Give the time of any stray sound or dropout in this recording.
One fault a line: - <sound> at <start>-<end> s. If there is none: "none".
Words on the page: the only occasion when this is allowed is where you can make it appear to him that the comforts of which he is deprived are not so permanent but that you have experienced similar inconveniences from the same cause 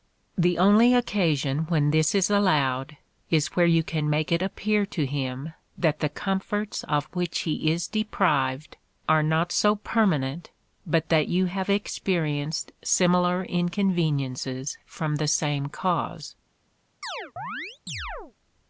- chirp at 17.0-18.3 s